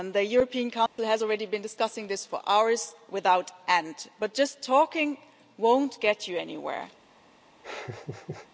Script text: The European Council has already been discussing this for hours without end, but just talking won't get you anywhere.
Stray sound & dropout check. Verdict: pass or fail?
fail